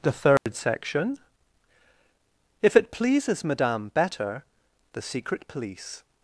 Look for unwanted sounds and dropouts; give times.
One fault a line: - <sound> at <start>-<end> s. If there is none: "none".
- dropout at 0.4-0.5 s